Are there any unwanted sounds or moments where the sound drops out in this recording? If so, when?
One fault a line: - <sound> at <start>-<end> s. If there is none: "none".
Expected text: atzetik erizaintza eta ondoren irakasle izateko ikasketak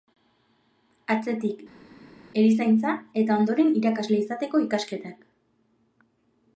none